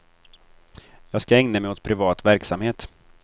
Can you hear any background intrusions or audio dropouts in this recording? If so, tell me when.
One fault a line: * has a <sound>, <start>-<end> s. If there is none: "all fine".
all fine